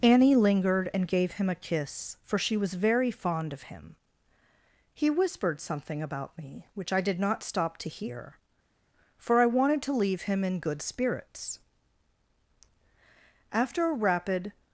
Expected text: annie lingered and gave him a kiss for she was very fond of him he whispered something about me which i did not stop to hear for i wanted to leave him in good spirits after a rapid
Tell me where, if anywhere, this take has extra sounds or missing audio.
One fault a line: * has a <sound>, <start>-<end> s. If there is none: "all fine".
all fine